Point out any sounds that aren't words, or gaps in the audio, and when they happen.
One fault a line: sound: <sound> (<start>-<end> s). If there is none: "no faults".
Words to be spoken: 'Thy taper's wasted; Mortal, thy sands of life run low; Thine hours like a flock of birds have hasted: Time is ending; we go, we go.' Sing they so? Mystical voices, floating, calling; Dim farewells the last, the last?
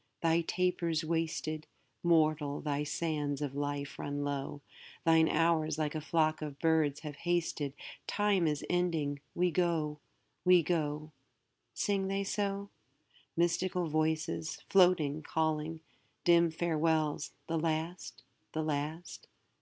no faults